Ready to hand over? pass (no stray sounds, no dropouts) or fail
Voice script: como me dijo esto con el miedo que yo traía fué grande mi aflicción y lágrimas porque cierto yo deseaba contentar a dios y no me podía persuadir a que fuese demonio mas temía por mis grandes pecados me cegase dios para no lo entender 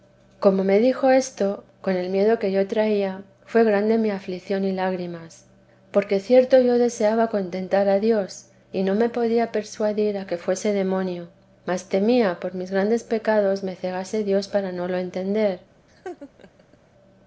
fail